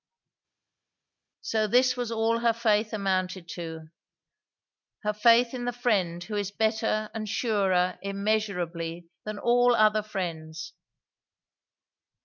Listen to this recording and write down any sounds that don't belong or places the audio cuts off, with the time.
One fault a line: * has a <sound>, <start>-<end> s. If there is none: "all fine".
all fine